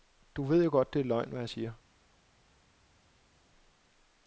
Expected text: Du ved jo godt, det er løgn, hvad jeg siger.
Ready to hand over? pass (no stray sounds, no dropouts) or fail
pass